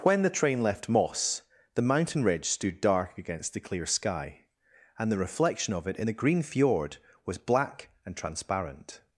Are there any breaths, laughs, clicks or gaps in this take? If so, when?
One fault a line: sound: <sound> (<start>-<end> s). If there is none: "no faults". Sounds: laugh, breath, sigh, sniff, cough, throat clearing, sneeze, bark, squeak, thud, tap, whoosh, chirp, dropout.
no faults